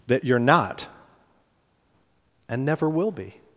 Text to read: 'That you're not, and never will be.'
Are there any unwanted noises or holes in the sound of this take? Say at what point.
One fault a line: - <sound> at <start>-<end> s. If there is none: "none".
none